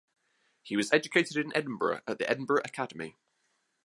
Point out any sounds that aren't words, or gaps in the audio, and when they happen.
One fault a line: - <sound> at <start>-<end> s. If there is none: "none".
none